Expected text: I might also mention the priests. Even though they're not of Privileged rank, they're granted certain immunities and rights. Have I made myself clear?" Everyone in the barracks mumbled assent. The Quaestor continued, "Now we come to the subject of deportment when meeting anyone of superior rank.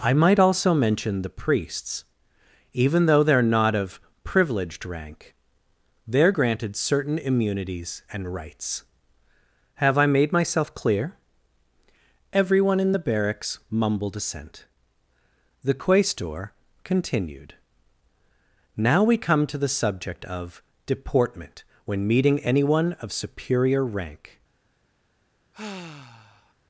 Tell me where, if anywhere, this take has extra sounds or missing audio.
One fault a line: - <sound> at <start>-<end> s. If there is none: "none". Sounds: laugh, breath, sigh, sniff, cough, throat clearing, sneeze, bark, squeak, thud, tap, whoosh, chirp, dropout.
- sigh at 25.5-26.5 s